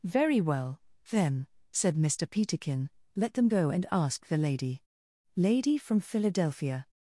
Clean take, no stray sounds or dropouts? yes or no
yes